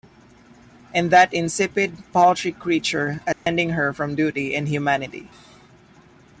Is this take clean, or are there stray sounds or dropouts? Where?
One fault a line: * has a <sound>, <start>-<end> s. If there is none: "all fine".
* has a dropout, 3.3-3.5 s